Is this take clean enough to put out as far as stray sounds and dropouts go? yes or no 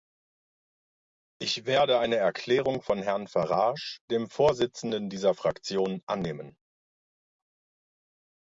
yes